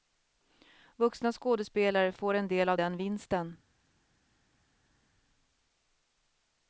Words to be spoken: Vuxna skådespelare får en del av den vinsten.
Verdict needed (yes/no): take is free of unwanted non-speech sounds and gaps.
yes